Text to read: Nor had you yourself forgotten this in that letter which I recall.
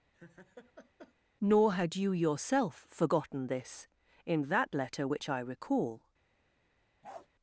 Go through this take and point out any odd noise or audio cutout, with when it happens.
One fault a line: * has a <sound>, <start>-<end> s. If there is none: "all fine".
* has a laugh, 0.1-1.1 s
* has a bark, 7.0-7.3 s